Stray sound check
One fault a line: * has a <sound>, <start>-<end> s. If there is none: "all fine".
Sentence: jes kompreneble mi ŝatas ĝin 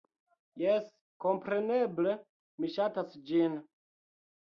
all fine